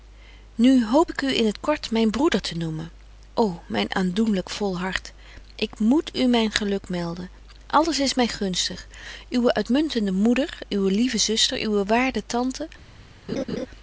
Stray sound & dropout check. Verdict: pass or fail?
fail